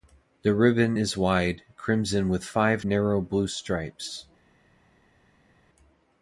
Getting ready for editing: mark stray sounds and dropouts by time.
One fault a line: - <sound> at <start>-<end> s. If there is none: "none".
none